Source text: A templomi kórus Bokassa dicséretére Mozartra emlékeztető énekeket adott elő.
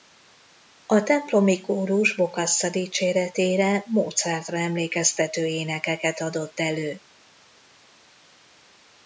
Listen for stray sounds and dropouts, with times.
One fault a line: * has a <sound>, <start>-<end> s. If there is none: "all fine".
all fine